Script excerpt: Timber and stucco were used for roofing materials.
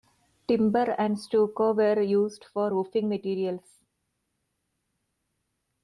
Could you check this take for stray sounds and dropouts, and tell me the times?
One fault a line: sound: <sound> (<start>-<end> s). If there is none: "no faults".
no faults